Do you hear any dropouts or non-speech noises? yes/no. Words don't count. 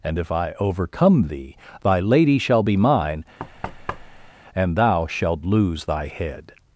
yes